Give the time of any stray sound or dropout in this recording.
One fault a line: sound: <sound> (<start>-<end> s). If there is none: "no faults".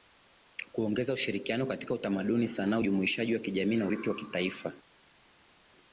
no faults